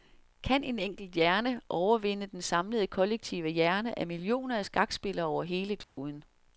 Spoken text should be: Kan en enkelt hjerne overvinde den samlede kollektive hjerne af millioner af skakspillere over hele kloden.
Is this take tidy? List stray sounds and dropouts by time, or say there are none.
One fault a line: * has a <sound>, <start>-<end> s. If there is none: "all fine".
* has a dropout, 5.8-6.0 s